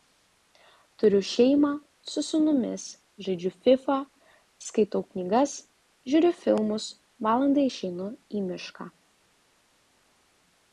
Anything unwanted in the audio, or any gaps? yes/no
no